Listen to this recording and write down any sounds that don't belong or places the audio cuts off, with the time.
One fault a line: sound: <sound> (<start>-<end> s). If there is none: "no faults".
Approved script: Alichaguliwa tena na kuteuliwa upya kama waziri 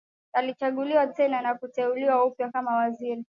no faults